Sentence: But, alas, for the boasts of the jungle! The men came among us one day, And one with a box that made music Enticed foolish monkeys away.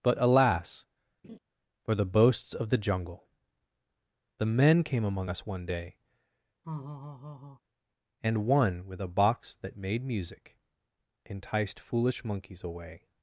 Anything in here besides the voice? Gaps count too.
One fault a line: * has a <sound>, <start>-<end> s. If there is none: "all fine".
* has a laugh, 1.2-1.4 s
* has a laugh, 6.6-7.6 s